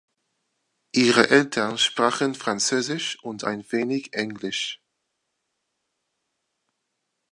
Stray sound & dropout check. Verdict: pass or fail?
pass